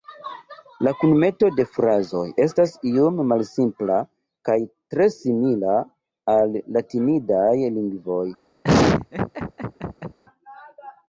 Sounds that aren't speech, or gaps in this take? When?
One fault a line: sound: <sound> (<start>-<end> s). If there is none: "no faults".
sound: laugh (8.6-10.2 s)